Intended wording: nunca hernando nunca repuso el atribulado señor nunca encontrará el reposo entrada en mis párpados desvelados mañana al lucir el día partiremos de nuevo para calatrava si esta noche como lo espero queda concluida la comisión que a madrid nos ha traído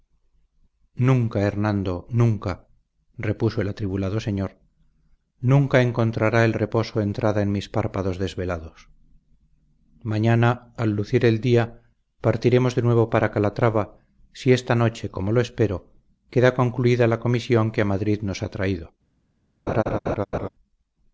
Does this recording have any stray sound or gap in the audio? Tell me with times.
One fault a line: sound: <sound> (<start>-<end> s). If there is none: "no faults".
sound: laugh (19.7-20.5 s)